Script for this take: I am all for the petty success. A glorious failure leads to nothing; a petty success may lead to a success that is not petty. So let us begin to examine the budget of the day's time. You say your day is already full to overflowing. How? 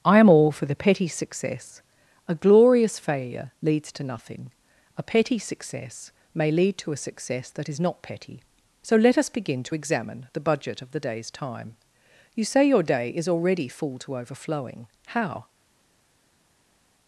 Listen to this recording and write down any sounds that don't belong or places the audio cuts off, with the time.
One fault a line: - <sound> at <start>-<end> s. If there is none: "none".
none